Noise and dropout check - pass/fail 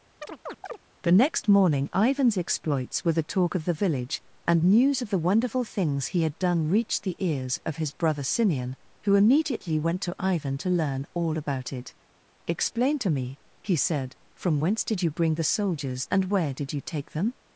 fail